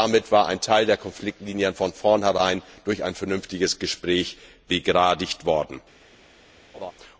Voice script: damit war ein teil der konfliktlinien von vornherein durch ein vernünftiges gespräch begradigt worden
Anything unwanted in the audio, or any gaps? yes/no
yes